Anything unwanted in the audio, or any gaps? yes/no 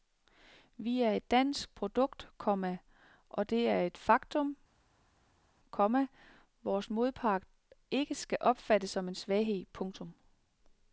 no